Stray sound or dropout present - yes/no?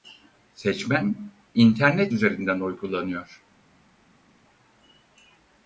no